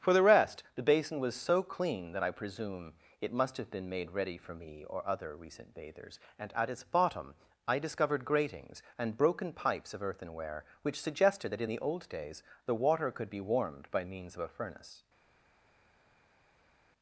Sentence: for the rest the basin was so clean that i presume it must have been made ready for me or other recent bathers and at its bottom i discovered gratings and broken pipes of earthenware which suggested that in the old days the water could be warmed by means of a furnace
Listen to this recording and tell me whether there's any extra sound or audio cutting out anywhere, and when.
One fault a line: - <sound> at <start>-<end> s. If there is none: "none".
none